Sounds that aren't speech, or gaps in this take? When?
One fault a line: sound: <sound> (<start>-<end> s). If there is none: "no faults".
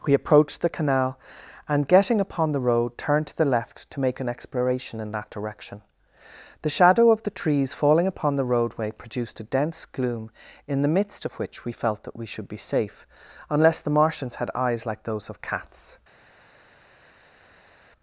no faults